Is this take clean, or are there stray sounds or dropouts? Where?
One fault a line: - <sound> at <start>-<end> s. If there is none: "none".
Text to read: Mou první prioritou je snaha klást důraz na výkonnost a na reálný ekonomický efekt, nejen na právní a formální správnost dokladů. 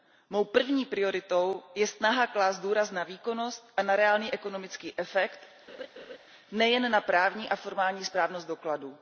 - laugh at 5.7-6.2 s